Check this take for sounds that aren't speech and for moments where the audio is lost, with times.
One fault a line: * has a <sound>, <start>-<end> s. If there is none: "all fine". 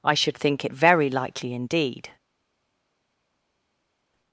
all fine